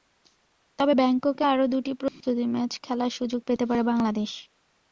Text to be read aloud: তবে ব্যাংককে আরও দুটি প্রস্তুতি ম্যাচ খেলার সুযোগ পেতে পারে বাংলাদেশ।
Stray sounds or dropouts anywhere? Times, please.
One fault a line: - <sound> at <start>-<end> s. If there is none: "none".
- dropout at 2.1-2.2 s